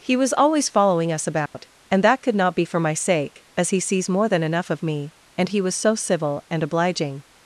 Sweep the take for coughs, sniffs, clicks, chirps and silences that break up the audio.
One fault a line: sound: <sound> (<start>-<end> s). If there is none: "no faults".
sound: dropout (1.5-1.5 s)